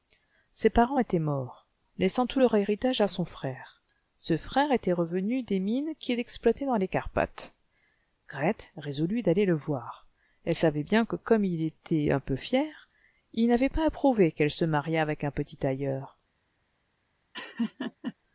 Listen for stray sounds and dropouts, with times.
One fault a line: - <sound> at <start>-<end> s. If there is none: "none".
- laugh at 17.3-18.1 s